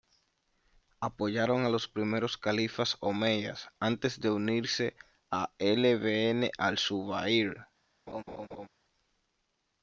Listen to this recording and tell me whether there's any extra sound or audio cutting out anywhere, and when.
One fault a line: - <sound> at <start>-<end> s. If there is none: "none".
- laugh at 8.1-8.7 s